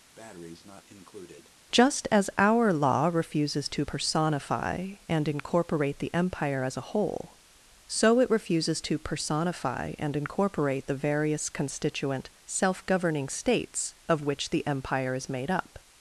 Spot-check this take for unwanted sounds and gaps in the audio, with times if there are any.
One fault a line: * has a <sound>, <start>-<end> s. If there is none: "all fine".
* has a breath, 0.1-1.5 s